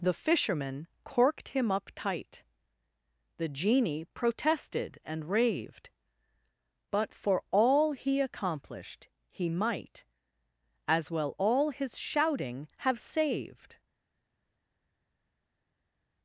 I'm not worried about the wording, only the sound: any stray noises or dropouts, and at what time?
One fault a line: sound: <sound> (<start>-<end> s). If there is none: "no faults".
no faults